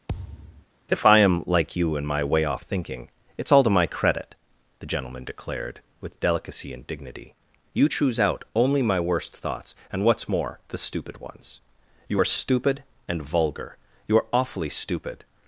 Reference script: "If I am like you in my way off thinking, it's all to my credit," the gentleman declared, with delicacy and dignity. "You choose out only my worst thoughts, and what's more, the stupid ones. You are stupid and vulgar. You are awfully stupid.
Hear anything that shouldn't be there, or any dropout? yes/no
yes